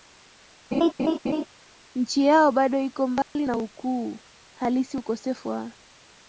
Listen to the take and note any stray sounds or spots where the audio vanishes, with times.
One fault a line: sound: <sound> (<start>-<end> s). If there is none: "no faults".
sound: laugh (0.7-1.5 s)
sound: dropout (3.2-3.4 s)